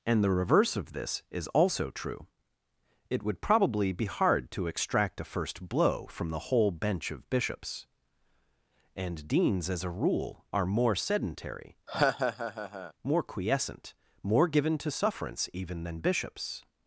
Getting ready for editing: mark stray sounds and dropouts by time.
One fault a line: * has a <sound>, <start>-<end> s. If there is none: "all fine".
* has a laugh, 11.9-12.9 s